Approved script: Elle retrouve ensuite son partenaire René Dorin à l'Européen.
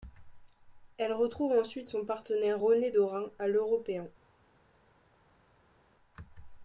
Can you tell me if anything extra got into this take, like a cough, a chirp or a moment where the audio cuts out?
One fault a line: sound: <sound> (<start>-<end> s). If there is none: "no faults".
no faults